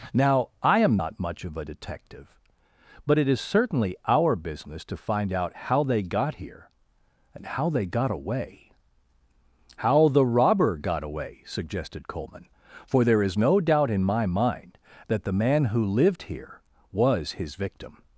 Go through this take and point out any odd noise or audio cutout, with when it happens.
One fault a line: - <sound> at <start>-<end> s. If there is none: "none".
none